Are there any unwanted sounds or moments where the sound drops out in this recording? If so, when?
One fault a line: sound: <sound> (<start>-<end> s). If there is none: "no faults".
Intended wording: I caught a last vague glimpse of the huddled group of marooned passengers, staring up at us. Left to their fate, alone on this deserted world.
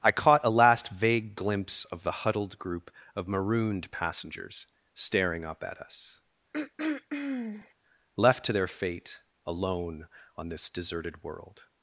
sound: throat clearing (6.5-7.7 s)